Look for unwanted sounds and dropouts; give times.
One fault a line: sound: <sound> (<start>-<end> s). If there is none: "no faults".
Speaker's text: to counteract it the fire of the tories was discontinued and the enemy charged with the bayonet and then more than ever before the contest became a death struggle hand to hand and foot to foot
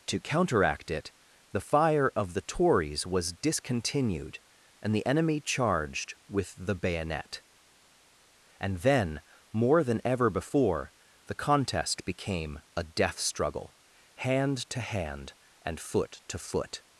no faults